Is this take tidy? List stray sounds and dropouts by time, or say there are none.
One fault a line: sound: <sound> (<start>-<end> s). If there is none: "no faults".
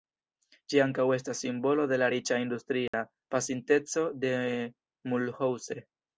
sound: dropout (2.9-2.9 s)